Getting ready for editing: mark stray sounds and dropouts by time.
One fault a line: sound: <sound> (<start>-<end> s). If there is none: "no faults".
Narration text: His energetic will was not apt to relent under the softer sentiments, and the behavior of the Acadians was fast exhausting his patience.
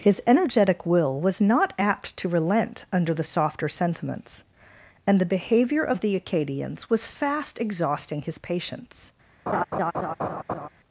sound: laugh (9.5-10.7 s)